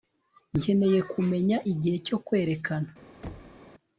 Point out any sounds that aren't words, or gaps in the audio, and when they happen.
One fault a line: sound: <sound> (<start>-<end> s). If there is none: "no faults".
sound: thud (3.2-3.6 s)